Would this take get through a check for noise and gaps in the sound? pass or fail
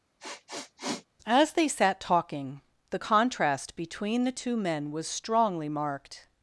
fail